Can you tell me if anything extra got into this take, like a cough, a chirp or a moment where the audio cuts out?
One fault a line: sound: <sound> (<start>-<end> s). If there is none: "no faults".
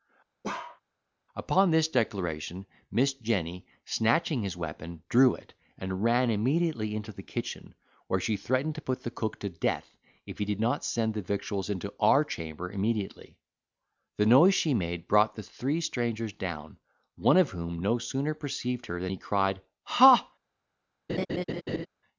sound: bark (0.4-0.8 s)
sound: laugh (21.1-21.9 s)